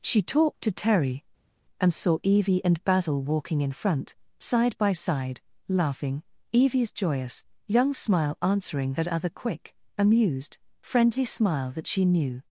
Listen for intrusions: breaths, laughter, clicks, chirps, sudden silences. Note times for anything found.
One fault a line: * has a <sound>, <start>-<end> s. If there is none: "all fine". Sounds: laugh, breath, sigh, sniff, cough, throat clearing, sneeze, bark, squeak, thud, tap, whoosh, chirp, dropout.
all fine